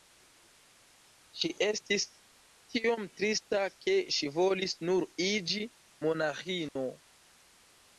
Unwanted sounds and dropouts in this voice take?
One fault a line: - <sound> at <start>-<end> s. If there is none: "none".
- dropout at 6.7-6.8 s